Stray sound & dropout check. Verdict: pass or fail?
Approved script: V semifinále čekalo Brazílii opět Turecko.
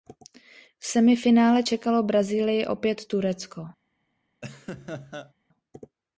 fail